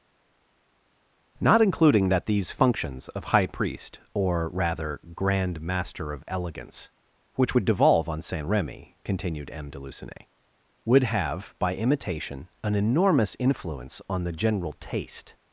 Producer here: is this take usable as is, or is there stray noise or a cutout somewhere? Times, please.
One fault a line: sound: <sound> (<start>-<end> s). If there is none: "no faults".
no faults